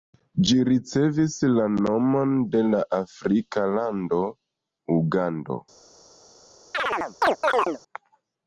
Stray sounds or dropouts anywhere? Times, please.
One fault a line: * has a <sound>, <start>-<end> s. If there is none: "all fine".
* has a chirp, 6.7-7.8 s